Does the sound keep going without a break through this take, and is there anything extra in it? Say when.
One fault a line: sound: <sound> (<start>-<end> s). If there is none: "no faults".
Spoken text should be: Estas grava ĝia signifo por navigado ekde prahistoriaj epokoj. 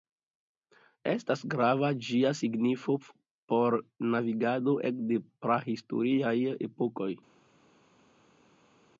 no faults